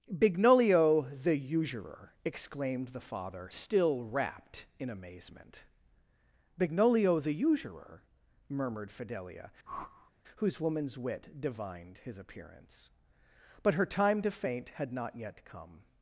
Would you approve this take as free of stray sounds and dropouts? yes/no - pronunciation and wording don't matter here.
no